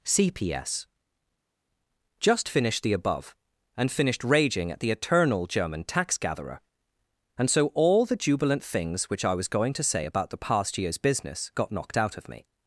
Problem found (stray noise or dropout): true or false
false